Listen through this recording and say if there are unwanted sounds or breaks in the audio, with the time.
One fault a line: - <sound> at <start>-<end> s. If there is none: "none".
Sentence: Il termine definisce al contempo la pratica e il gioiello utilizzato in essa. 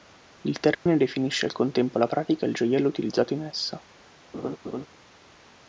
- dropout at 0.7-0.9 s
- laugh at 4.3-4.9 s